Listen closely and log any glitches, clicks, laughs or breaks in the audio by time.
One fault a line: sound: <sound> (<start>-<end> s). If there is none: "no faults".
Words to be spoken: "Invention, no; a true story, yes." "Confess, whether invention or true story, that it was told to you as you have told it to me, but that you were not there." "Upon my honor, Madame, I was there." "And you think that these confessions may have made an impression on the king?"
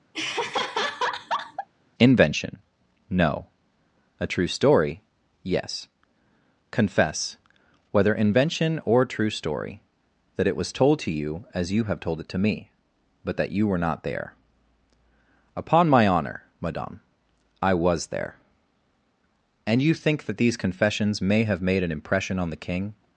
sound: laugh (0.1-1.7 s)